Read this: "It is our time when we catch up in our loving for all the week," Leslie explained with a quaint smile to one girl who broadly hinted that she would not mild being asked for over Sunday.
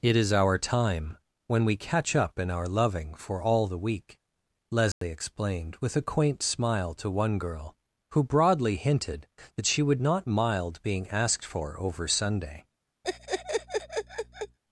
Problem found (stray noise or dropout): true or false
true